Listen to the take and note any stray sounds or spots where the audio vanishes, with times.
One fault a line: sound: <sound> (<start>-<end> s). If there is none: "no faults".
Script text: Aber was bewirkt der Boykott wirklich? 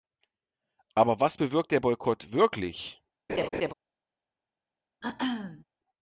sound: laugh (3.3-3.7 s)
sound: throat clearing (5.0-5.6 s)